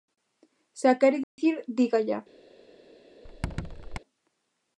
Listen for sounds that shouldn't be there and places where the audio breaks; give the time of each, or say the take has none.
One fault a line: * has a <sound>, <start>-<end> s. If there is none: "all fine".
* has a dropout, 1.2-1.4 s
* has a squeak, 3.2-4.0 s